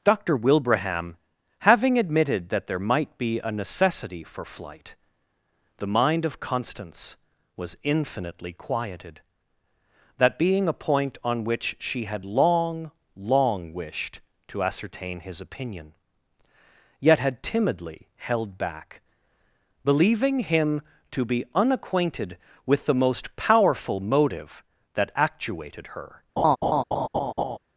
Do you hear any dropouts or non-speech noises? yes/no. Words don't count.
yes